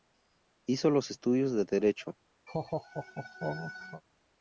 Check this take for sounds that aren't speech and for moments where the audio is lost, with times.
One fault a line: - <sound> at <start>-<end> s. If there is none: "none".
- laugh at 2.5-4.0 s